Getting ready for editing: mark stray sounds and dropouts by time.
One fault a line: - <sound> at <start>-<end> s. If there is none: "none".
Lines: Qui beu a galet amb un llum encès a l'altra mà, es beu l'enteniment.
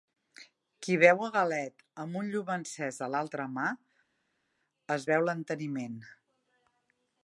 none